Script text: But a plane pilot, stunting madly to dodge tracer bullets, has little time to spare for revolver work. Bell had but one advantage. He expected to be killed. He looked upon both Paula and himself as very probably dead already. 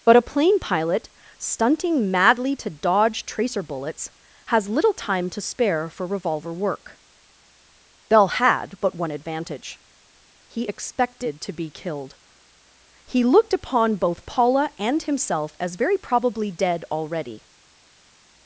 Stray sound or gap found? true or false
false